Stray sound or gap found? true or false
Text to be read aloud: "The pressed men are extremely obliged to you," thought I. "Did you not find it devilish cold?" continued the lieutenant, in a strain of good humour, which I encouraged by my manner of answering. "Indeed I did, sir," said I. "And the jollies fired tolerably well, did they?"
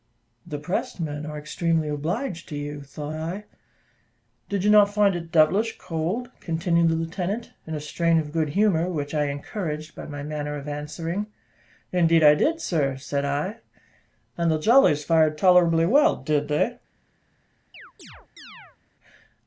true